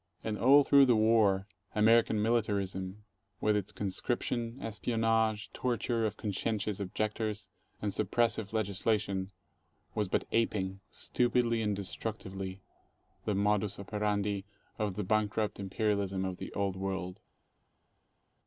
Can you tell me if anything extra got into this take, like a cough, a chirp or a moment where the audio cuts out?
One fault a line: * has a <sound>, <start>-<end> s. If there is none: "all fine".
all fine